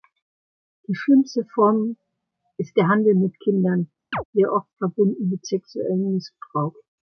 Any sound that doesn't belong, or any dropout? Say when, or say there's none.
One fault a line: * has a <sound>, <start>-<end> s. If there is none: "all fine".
* has a chirp, 4.1-4.2 s